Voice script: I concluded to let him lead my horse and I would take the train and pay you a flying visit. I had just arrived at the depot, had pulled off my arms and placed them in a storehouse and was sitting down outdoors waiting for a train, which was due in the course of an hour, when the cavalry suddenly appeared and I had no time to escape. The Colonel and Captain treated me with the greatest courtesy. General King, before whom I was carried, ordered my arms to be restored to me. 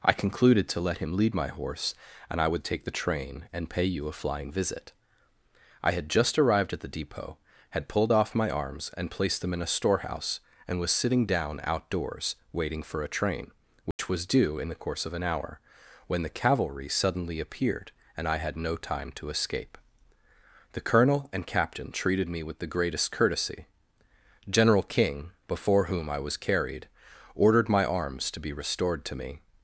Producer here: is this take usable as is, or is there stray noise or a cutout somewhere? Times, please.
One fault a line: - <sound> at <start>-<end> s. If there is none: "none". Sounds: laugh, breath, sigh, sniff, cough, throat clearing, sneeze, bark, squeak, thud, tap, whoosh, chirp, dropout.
- dropout at 13.9-14.0 s